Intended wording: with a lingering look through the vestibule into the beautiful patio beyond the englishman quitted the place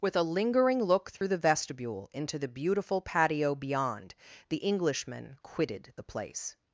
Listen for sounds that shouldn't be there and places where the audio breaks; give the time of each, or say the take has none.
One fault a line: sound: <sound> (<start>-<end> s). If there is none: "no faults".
sound: dropout (1.2-1.2 s)